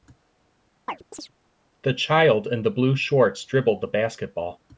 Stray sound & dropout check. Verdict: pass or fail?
fail